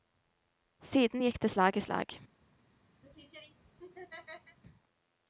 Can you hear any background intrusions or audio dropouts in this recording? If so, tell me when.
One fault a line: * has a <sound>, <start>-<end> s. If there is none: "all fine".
* has a laugh, 3.0-4.6 s